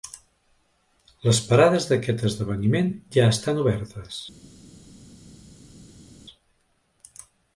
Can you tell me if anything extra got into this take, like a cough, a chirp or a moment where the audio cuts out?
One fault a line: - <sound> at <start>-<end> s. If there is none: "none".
none